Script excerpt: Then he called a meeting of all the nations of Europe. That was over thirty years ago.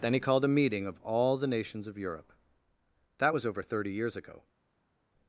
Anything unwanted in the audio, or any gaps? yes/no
no